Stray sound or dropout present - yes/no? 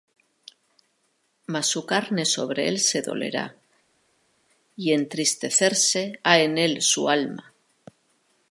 no